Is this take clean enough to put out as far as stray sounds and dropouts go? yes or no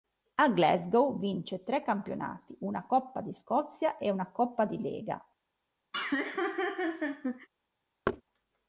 no